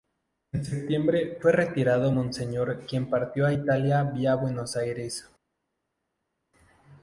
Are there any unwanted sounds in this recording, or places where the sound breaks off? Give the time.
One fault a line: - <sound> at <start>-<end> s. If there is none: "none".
none